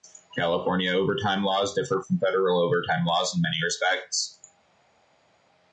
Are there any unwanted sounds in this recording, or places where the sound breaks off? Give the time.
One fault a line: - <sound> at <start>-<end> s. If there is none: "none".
none